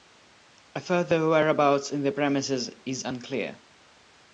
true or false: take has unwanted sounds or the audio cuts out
false